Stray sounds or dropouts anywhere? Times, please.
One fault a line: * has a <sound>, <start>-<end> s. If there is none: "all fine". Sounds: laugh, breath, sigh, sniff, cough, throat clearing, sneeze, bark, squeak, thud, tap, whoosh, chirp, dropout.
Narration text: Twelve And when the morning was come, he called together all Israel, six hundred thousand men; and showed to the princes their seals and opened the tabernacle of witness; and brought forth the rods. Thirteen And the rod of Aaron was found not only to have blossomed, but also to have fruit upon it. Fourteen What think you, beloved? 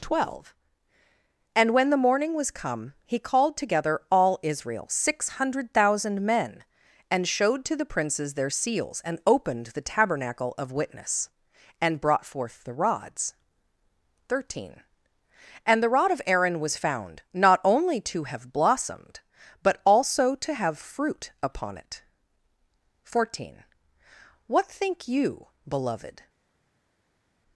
all fine